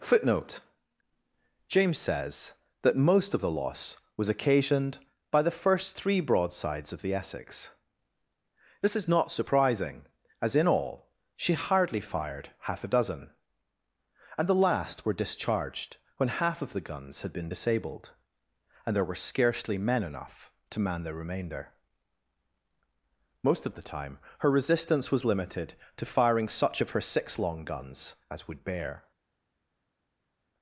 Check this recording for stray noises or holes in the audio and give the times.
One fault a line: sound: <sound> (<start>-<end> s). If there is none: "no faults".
no faults